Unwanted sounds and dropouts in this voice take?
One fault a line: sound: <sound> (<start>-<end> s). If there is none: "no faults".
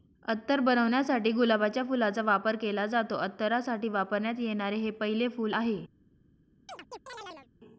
sound: chirp (6.7-7.5 s)